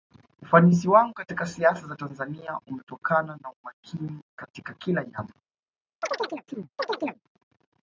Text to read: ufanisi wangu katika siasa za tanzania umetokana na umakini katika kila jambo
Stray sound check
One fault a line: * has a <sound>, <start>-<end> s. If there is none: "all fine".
* has a chirp, 6.0-7.2 s